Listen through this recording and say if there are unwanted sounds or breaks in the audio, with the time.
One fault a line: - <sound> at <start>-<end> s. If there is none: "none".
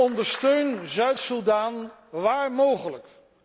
none